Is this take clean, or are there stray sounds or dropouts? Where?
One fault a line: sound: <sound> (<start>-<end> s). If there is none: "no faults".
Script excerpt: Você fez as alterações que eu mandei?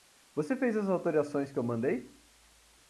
no faults